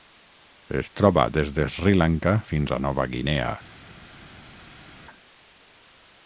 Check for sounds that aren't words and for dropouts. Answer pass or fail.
pass